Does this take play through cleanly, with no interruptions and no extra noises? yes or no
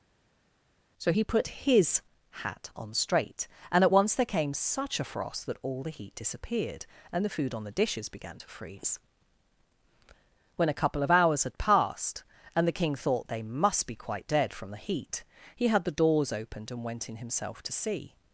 yes